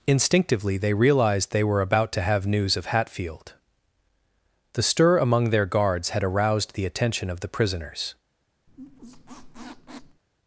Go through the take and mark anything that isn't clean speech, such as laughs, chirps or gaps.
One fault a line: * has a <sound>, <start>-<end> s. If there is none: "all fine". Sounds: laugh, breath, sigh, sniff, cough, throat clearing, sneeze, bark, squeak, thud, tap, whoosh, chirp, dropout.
* has a squeak, 8.7-10.2 s